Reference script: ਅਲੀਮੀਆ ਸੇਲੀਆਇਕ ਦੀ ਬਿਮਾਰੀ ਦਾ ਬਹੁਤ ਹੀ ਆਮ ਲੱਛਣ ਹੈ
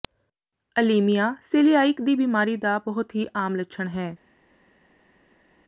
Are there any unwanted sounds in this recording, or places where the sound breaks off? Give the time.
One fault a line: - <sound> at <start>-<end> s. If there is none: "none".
none